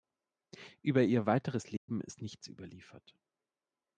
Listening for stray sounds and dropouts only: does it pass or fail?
fail